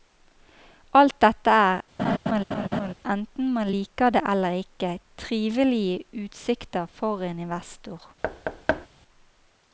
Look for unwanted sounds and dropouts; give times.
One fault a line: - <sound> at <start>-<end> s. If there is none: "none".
- laugh at 2.0-2.9 s
- thud at 8.2-8.9 s